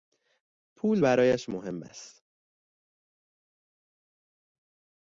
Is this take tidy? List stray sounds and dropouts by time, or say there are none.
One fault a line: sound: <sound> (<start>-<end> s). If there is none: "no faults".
no faults